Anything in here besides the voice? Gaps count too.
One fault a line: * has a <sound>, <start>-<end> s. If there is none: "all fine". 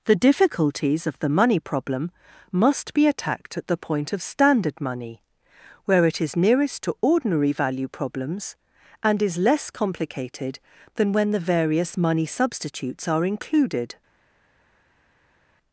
all fine